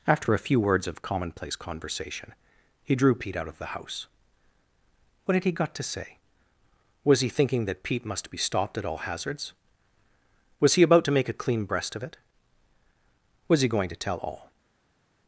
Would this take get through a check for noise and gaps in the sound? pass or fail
pass